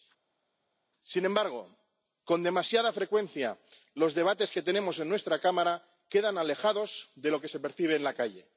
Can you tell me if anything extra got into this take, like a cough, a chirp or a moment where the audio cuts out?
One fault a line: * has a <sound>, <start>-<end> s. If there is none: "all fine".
all fine